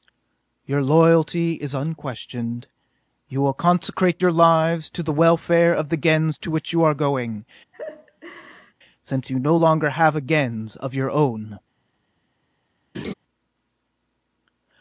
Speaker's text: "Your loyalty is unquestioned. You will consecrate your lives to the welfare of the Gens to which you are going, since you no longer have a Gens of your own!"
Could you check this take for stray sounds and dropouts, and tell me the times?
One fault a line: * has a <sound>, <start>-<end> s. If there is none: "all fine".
* has a laugh, 7.7-8.7 s
* has a laugh, 12.9-13.1 s